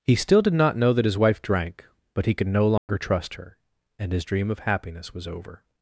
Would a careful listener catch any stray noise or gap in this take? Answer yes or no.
yes